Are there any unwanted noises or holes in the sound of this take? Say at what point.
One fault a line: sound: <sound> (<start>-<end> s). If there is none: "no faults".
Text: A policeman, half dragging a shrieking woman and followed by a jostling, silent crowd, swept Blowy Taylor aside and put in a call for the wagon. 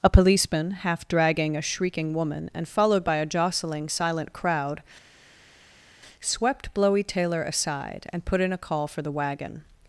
no faults